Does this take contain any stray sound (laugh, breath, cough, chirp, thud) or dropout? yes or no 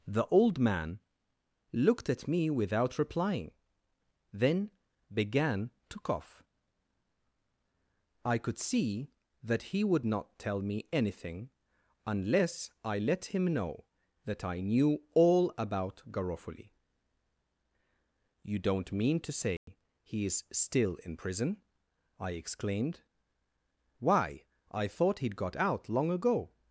yes